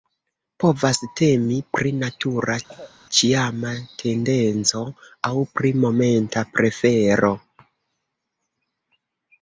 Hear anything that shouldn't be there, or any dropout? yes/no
yes